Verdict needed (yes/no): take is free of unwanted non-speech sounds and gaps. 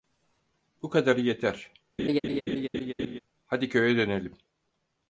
no